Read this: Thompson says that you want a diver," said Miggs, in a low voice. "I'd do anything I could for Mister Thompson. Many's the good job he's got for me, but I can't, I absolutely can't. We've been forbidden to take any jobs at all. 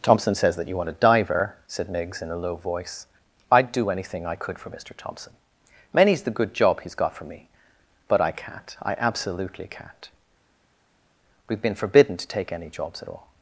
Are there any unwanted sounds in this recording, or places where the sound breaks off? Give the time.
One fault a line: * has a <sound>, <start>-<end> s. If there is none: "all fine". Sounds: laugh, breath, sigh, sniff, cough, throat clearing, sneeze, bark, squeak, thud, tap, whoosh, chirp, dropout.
all fine